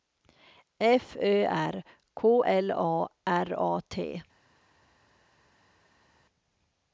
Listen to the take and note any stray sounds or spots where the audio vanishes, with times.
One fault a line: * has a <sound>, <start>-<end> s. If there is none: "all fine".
all fine